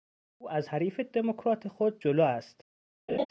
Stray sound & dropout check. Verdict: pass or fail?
fail